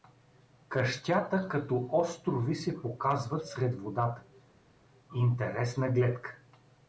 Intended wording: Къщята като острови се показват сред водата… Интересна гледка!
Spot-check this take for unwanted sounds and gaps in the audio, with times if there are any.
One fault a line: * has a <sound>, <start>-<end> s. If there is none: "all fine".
all fine